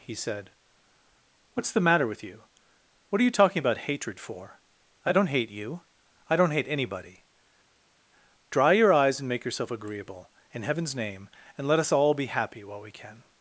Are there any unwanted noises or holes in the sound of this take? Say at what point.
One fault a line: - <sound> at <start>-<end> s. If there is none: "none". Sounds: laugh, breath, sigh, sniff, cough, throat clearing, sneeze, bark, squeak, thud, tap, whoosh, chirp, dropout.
none